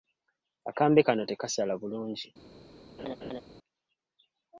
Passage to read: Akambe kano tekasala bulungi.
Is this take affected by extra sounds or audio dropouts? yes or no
yes